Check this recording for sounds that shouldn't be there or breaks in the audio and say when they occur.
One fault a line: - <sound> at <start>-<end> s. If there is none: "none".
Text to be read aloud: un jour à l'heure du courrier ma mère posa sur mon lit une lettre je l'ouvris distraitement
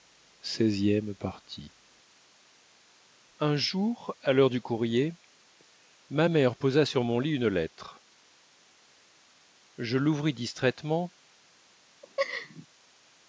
- laugh at 12.0-12.7 s